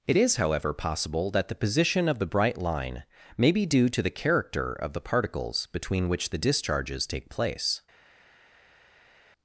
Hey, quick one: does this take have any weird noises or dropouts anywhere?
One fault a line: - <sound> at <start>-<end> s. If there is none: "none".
none